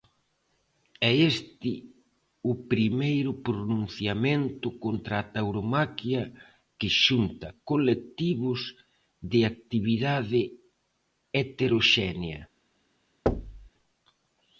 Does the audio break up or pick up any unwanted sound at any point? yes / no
yes